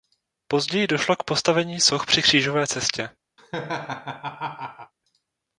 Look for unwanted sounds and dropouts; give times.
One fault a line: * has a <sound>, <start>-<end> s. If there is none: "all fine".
* has a laugh, 3.4-4.9 s